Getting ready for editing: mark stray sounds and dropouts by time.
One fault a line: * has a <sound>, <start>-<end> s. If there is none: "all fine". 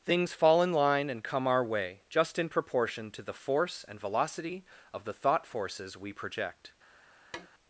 * has a tap, 7.3-7.5 s